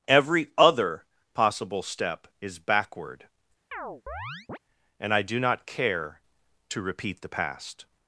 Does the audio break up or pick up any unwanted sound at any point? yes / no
yes